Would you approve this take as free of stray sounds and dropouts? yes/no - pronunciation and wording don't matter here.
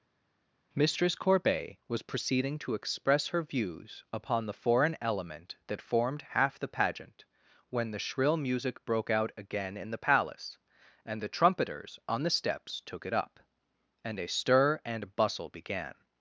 yes